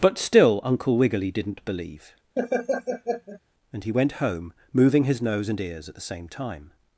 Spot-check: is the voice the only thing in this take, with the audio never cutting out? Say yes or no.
no